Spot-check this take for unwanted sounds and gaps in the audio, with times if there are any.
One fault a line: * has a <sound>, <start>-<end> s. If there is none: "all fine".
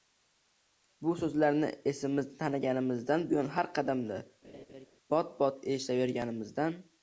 * has a laugh, 4.4-4.9 s